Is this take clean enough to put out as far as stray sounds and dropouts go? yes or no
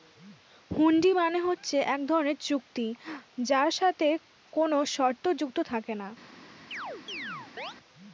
no